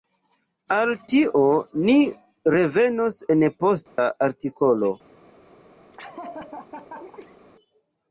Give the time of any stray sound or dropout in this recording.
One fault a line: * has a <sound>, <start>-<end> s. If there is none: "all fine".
* has a dropout, 3.9-4.0 s
* has a laugh, 5.9-7.4 s